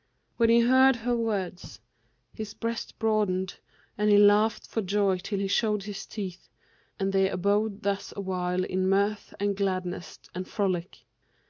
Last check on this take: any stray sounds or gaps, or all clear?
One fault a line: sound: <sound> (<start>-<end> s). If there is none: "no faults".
no faults